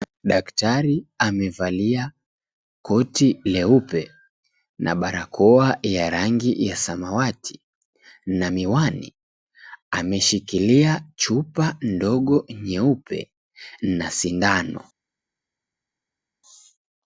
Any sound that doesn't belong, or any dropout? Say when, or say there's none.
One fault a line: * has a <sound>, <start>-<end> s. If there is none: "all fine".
all fine